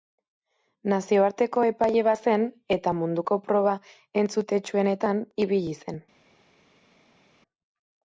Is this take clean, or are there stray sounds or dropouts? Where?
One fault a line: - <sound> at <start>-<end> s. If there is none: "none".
none